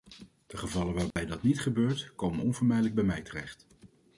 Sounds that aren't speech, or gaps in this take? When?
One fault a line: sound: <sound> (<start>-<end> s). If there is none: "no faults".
sound: dropout (1.1-1.2 s)